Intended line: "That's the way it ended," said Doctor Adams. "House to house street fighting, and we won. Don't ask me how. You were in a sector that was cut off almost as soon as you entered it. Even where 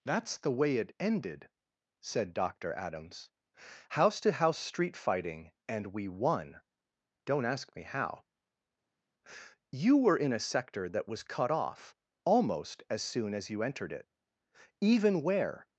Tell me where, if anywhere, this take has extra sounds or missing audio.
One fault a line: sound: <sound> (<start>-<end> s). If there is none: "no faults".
no faults